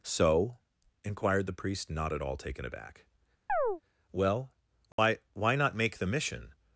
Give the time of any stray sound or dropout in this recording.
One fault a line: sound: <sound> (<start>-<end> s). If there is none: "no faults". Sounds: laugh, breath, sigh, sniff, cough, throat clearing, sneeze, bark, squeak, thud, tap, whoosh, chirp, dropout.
sound: chirp (3.5-3.8 s)
sound: dropout (4.9-5.0 s)